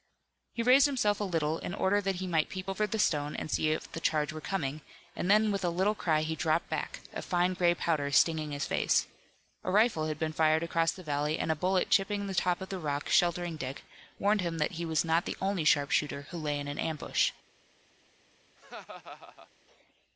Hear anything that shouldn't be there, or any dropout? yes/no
yes